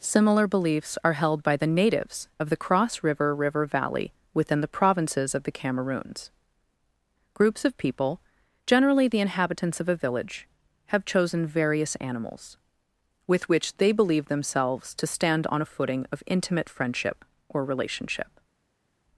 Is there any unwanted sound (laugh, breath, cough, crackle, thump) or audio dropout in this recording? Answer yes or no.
no